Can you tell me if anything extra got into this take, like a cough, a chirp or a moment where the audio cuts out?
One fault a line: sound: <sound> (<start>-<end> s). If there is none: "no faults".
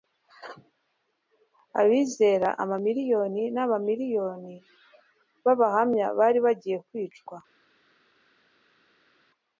no faults